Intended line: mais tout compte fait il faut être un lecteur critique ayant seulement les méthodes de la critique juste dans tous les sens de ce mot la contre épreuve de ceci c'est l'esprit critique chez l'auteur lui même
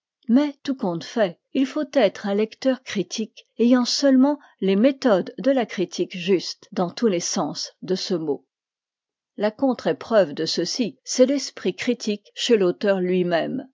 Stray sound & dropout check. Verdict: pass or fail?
pass